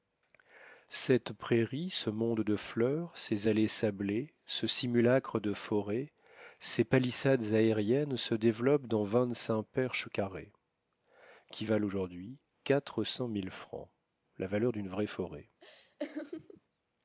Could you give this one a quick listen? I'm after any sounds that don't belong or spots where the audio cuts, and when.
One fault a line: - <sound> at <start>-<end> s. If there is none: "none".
- laugh at 15.6-16.6 s